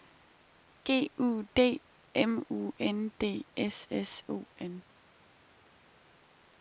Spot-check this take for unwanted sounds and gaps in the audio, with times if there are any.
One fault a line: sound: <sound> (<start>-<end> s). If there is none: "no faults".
no faults